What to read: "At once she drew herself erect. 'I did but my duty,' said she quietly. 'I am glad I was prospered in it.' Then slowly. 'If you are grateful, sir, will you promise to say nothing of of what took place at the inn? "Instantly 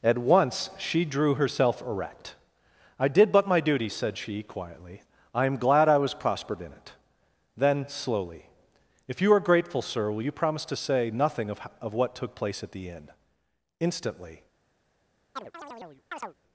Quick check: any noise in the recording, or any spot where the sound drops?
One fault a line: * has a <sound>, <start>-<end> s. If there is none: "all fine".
* has a chirp, 15.4-16.3 s